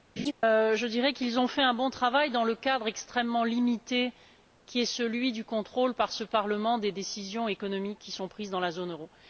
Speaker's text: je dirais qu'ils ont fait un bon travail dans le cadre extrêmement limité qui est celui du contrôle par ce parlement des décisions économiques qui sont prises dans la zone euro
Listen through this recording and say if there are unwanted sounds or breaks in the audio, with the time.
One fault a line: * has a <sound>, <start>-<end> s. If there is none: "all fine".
* has a laugh, 0.2-0.3 s